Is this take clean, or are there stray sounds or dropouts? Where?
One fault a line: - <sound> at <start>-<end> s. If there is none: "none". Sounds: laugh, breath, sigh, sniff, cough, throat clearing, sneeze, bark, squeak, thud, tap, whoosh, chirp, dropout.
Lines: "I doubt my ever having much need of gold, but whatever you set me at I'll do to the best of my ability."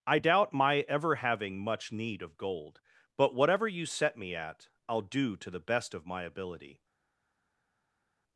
none